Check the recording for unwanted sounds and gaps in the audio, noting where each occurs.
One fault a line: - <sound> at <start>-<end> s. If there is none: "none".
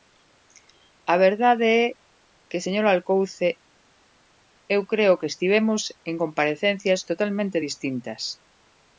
none